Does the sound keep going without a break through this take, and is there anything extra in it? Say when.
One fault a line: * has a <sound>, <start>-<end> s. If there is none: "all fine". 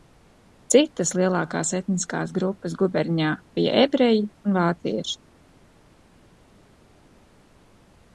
all fine